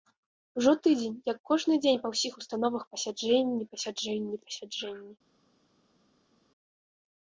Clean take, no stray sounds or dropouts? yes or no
yes